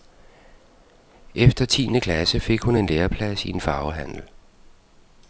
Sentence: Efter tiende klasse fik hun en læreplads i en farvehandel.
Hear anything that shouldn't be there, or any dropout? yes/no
no